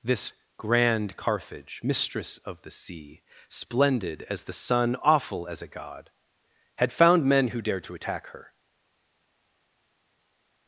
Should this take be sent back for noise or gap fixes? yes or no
no